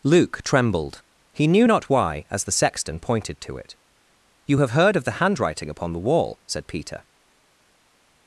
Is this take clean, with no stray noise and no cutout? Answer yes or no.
yes